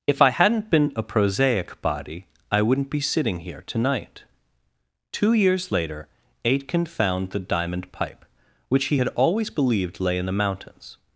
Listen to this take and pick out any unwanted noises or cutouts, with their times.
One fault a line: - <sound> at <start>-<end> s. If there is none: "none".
none